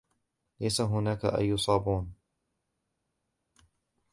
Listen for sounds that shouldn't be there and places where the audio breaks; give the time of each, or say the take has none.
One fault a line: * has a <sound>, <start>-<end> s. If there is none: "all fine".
all fine